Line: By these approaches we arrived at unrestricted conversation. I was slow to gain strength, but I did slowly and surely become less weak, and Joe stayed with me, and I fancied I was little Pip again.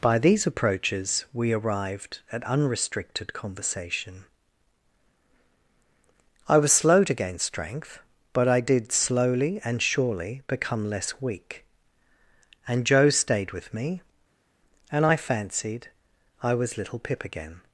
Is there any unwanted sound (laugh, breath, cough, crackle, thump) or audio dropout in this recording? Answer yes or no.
no